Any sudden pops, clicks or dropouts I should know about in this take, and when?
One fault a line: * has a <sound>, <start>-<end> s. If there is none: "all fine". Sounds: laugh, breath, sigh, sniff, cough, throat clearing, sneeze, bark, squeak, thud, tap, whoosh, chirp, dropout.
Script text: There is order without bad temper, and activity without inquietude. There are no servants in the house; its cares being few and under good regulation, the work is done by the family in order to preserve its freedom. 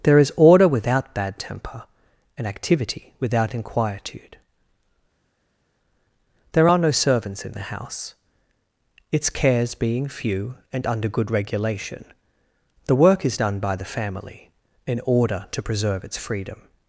all fine